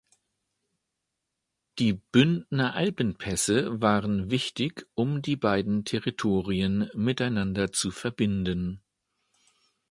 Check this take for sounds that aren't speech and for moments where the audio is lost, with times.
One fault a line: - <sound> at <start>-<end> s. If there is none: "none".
none